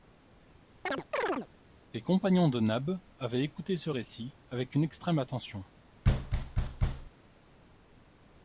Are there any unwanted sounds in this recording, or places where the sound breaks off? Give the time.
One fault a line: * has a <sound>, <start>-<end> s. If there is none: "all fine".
* has a chirp, 0.9-1.5 s
* has a thud, 6.0-7.1 s